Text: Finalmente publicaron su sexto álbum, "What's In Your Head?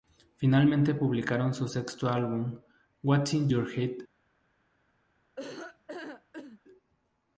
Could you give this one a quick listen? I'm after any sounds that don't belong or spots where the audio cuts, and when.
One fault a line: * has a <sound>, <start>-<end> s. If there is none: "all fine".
* has a laugh, 5.4-6.6 s